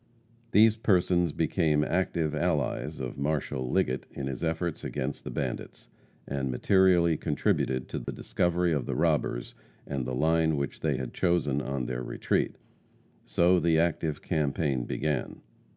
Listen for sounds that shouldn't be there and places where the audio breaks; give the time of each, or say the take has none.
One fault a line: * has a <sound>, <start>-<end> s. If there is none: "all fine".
* has a dropout, 8.0-8.1 s